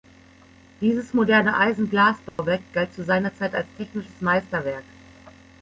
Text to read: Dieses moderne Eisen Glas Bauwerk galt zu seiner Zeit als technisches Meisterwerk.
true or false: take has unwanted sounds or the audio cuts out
true